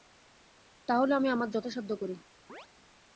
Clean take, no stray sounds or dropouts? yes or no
no